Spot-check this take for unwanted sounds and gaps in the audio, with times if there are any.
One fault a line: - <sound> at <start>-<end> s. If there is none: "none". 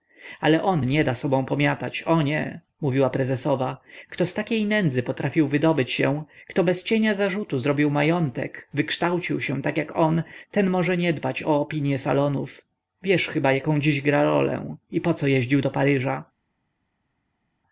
none